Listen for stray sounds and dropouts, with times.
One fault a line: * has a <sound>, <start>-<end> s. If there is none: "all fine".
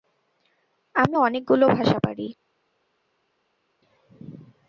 all fine